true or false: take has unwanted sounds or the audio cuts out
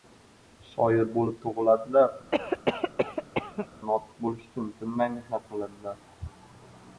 true